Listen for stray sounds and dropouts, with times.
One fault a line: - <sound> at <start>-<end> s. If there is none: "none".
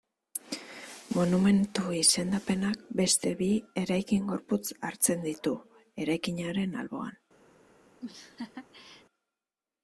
- laugh at 8.0-9.1 s